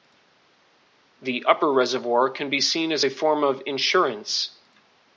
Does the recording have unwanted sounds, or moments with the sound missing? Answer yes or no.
no